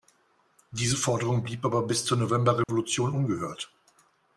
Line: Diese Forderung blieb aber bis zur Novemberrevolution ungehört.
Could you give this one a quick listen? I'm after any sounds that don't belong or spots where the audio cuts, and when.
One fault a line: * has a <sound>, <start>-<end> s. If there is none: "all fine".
* has a dropout, 2.6-2.7 s